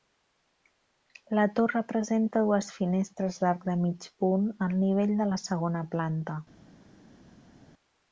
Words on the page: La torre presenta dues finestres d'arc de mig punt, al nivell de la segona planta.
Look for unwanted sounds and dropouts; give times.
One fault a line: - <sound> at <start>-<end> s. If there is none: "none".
none